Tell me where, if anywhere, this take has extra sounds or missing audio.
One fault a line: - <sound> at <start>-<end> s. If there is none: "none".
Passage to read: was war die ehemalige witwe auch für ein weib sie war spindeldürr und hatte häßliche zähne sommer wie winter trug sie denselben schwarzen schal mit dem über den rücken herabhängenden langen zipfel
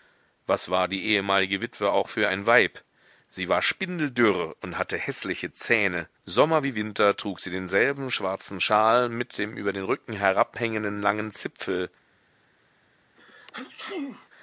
- sneeze at 13.2-14.3 s